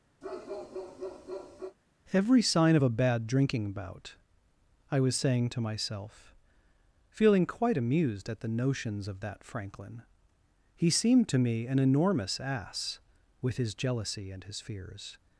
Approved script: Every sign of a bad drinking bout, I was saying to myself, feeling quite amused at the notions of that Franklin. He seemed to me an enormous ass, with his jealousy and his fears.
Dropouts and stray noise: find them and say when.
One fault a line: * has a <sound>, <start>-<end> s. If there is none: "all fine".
* has a bark, 0.2-1.8 s